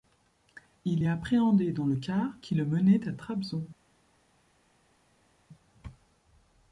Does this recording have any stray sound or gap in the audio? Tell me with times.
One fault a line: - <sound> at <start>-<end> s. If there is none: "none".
none